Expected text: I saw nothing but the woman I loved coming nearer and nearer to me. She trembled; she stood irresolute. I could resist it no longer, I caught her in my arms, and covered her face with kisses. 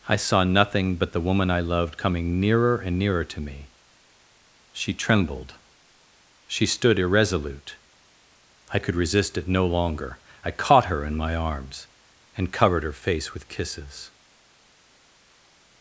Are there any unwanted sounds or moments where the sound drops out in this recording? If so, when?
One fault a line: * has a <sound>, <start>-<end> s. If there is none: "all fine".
all fine